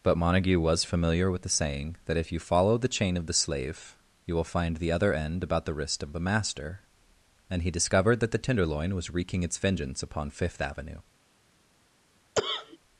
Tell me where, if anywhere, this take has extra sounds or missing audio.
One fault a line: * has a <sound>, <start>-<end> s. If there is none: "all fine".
* has a cough, 12.4-12.8 s